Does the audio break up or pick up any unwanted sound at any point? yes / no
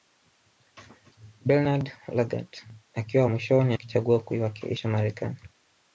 no